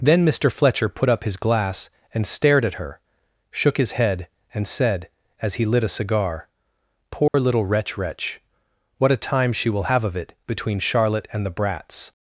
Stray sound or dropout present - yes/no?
yes